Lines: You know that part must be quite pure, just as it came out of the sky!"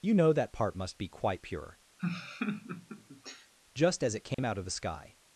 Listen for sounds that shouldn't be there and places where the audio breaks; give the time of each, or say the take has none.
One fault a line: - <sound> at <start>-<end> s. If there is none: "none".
- laugh at 2.0-3.5 s
- dropout at 4.3-4.4 s